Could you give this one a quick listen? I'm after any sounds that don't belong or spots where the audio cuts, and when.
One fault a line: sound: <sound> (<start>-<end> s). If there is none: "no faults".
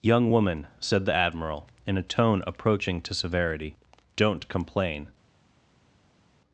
no faults